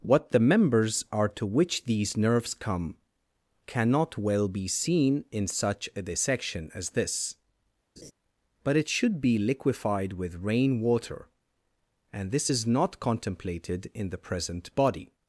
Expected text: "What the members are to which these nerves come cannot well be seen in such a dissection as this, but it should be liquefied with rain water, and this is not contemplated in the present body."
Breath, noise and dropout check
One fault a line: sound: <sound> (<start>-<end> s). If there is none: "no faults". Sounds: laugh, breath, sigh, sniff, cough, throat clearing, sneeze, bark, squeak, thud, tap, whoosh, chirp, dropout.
sound: laugh (8.0-8.1 s)